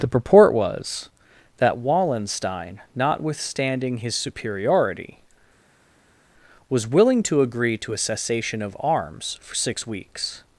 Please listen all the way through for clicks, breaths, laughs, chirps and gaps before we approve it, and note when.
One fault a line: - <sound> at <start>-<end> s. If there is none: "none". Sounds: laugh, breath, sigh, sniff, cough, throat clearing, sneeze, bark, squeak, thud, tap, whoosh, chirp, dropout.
none